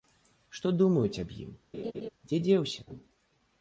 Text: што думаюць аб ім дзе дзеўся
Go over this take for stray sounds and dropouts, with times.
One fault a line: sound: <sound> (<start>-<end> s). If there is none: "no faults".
sound: laugh (1.7-2.1 s)